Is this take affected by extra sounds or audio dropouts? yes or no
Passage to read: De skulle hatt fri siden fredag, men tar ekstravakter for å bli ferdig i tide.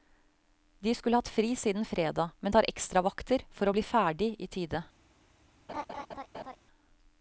yes